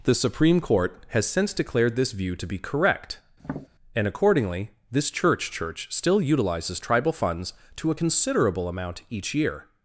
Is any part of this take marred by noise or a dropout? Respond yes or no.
yes